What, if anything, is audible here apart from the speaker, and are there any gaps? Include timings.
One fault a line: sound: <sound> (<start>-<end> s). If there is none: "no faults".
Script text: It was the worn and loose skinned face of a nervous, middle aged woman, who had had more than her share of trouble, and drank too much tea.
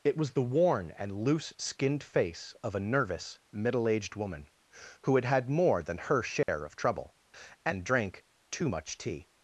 sound: dropout (6.4-6.5 s)